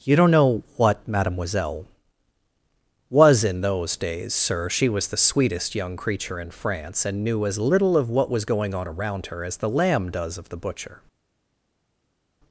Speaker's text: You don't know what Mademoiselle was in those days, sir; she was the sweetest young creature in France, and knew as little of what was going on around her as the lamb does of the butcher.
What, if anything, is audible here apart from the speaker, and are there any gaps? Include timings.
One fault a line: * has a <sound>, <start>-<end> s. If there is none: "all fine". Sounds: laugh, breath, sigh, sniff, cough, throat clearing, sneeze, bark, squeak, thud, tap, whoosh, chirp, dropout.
all fine